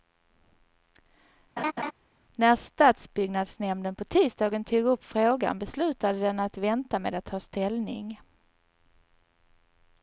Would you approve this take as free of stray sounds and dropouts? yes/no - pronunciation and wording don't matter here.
no